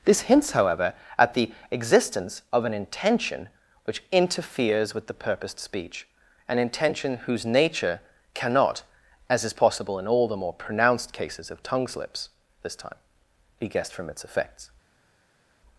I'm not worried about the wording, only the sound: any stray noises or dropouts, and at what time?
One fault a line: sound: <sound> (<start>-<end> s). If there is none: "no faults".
no faults